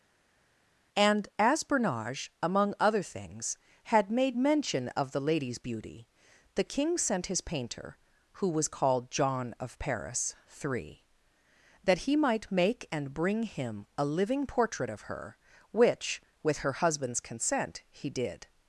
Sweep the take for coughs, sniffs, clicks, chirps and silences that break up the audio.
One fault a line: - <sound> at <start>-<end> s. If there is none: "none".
none